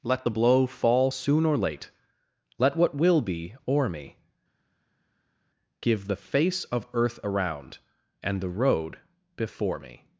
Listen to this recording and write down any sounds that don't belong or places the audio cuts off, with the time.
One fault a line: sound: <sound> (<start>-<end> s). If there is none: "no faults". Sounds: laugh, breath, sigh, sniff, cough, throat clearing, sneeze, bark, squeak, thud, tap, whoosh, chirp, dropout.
no faults